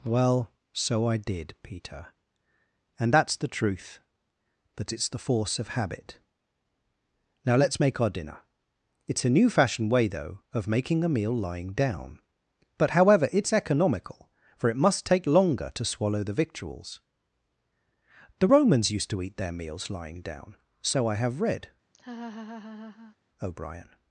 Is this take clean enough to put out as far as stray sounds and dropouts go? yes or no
no